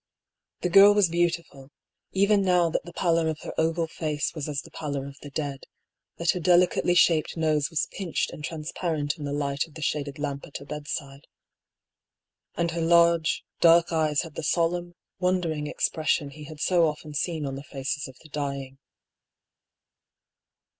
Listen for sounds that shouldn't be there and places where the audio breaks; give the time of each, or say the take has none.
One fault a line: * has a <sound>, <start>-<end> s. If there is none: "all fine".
all fine